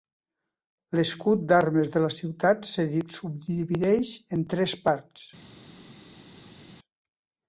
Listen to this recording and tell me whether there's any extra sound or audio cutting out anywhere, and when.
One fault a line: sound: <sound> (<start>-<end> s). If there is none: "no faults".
no faults